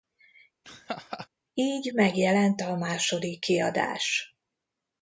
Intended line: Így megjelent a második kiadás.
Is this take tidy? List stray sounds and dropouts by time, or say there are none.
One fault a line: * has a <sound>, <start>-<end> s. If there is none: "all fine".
* has a laugh, 0.6-1.3 s